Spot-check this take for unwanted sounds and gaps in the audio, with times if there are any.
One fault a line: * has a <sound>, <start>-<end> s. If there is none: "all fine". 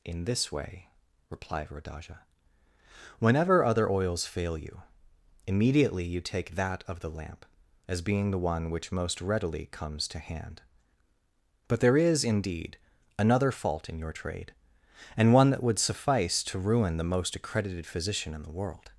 all fine